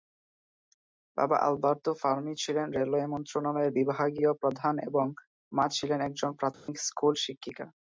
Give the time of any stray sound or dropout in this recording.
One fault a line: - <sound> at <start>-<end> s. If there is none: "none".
- dropout at 6.5-6.7 s